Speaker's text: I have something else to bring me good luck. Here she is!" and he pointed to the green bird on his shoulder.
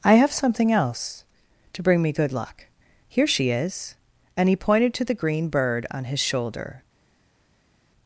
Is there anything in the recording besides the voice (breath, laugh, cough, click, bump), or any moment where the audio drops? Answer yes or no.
no